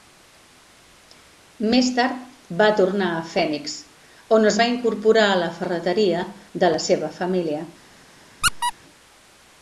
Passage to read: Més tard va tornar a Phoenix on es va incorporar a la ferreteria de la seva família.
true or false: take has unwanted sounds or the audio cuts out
true